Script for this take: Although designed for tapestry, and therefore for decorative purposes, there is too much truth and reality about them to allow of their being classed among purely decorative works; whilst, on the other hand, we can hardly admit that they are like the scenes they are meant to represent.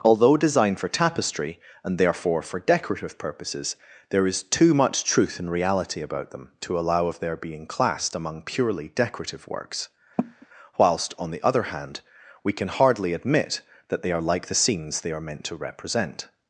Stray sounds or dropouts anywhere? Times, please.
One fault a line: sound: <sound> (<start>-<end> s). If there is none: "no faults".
sound: cough (10.2-10.5 s)